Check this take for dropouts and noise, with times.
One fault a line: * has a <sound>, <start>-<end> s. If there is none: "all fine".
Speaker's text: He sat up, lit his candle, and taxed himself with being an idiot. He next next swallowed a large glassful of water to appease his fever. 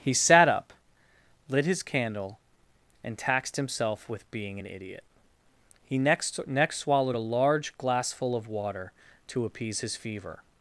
all fine